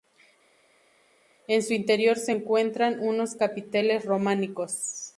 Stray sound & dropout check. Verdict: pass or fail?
pass